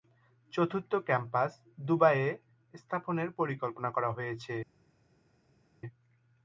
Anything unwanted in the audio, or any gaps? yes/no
no